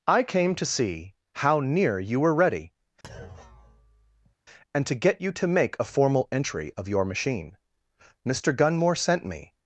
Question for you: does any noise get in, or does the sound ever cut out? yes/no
yes